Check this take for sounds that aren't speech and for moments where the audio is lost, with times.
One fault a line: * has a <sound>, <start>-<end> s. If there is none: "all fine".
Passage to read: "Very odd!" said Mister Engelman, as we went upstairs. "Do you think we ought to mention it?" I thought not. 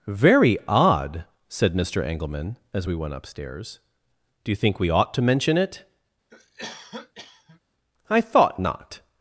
* has a cough, 6.3-7.6 s